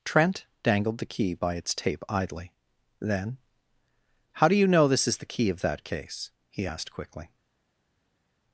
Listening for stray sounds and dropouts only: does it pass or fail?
pass